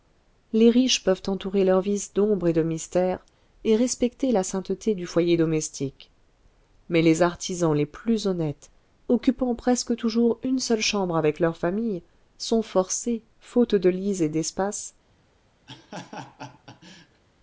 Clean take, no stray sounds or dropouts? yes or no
no